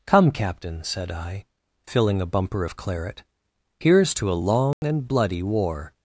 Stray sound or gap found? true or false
true